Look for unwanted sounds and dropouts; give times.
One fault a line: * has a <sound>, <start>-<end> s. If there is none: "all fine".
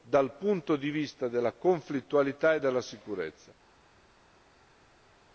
all fine